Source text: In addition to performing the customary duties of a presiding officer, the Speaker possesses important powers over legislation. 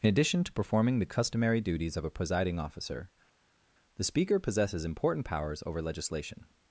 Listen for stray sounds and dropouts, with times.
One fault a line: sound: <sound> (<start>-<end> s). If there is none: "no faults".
no faults